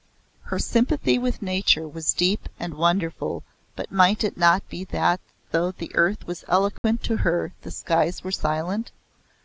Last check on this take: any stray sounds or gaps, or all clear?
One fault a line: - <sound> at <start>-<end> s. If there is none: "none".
- dropout at 6.8-6.8 s